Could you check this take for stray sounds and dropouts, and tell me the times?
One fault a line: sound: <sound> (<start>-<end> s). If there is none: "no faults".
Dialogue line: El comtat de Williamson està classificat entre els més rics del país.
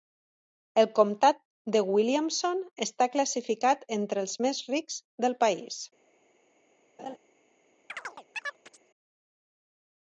sound: laugh (7.0-7.2 s)
sound: chirp (7.9-8.9 s)